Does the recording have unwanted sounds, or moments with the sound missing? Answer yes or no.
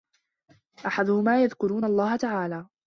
no